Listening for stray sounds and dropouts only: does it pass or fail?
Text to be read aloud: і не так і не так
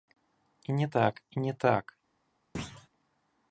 fail